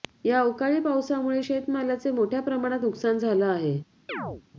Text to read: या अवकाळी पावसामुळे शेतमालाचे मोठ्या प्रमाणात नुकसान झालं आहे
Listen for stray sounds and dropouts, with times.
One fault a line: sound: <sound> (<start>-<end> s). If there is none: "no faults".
sound: chirp (4.1-4.4 s)